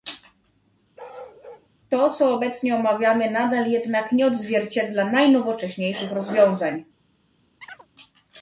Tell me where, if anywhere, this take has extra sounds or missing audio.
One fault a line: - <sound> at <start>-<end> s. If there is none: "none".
- bark at 1.0-1.7 s
- chirp at 7.6-7.9 s